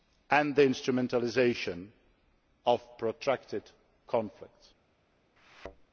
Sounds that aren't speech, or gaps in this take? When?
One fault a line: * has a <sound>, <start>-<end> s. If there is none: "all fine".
* has a thud, 5.4-5.9 s